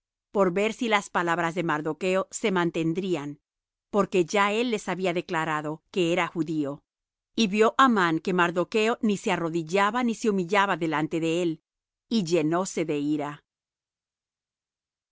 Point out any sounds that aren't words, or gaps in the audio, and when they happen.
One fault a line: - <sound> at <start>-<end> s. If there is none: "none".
none